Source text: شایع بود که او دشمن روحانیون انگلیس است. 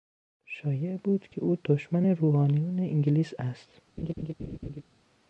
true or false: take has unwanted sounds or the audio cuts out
true